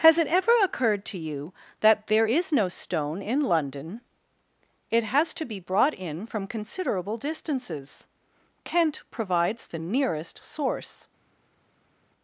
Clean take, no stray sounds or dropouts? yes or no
yes